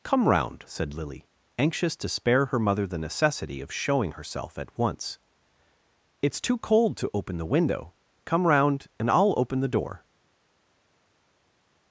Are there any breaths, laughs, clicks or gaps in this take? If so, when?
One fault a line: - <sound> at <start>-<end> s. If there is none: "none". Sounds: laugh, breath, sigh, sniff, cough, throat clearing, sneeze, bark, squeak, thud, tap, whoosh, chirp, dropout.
none